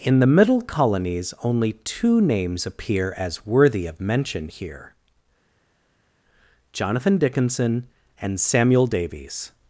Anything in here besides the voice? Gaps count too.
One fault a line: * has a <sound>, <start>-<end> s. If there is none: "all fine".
all fine